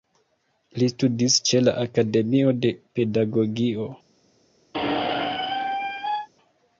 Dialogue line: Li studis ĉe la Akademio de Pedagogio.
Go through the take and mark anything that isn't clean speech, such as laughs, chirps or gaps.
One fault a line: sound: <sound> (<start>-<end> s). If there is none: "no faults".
sound: squeak (4.7-6.3 s)